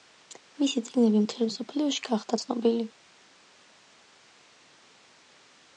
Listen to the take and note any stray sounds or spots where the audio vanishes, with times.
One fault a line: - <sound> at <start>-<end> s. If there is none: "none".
none